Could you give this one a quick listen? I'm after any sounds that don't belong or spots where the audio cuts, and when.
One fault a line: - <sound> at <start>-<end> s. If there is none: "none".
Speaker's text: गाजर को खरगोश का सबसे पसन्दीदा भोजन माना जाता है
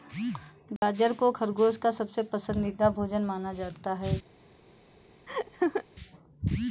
- dropout at 0.8-0.8 s
- laugh at 5.3-5.8 s